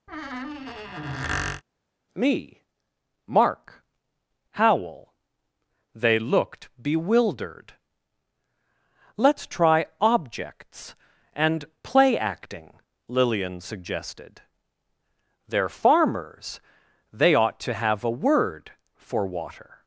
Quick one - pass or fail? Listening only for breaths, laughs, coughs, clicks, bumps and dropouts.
fail